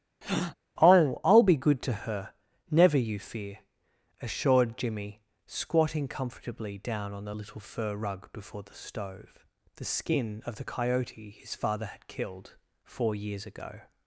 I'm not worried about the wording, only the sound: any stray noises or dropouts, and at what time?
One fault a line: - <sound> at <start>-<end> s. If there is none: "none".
- breath at 0.2-0.5 s